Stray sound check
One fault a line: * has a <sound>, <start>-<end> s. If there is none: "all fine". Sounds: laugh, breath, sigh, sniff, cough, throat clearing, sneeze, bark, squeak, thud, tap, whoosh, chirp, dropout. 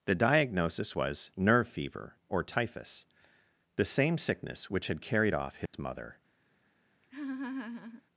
* has a dropout, 5.7-5.7 s
* has a laugh, 7.0-8.0 s